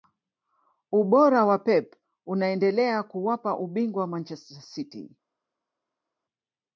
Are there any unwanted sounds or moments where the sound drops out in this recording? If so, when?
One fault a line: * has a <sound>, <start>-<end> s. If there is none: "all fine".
all fine